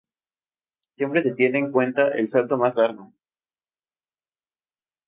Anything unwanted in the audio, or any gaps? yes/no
no